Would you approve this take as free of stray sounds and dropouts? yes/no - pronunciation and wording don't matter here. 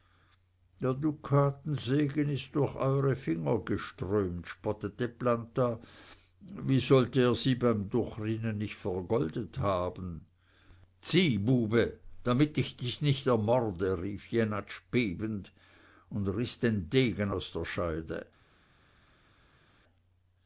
yes